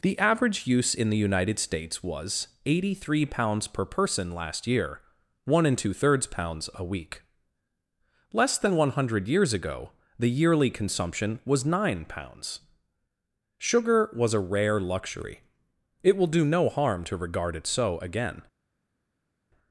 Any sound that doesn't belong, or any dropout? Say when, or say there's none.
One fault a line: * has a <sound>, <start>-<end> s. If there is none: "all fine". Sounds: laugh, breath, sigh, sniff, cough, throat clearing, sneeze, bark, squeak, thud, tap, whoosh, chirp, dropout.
all fine